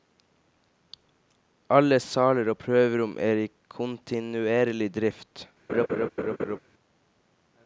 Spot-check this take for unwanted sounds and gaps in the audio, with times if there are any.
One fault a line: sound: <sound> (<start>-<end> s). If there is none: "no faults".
sound: laugh (5.7-6.6 s)